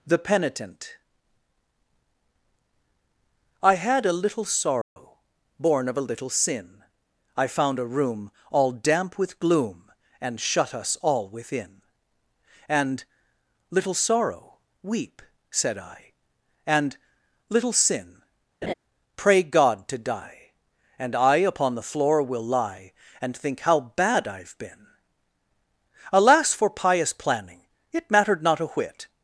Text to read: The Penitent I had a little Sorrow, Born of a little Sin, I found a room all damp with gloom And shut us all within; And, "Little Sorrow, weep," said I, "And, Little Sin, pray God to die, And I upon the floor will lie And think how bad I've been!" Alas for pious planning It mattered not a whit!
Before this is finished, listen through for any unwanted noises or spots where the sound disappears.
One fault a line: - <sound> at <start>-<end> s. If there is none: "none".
- dropout at 4.8-5.0 s
- laugh at 18.6-18.7 s